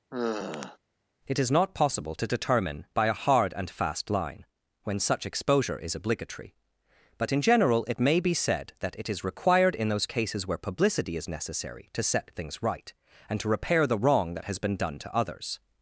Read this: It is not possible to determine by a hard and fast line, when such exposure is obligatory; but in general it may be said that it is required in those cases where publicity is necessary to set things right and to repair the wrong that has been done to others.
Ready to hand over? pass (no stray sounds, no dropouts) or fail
fail